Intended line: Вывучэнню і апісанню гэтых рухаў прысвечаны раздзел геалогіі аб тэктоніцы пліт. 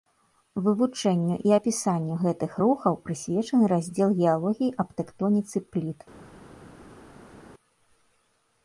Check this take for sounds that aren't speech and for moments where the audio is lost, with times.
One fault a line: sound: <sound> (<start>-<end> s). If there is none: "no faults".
no faults